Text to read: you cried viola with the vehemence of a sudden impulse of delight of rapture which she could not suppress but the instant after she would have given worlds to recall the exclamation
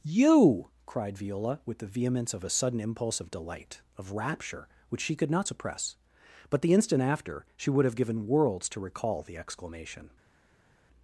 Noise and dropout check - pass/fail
pass